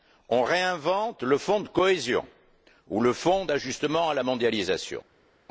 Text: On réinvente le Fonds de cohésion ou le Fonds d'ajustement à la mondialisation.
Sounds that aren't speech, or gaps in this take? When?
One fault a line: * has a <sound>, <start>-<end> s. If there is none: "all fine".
all fine